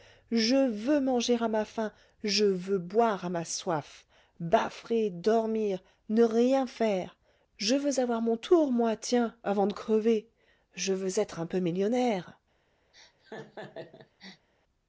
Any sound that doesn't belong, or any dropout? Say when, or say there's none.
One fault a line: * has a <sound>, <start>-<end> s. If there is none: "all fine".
* has a laugh, 12.9-14.5 s